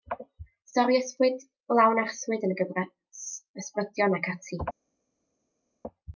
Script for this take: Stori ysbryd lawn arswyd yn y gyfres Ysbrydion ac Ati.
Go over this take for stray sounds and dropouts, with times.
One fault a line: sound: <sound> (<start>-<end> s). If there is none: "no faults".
no faults